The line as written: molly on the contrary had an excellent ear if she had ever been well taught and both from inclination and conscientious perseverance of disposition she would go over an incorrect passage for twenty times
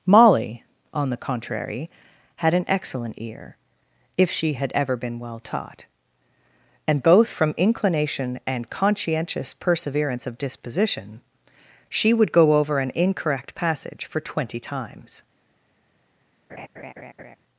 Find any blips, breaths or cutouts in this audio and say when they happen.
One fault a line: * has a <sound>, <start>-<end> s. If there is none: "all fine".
* has a laugh, 16.5-17.4 s